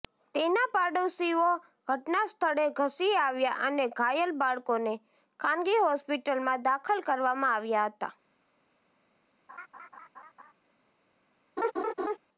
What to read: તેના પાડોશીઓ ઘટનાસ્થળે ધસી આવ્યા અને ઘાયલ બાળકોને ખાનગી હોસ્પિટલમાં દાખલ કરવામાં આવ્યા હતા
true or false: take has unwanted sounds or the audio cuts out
true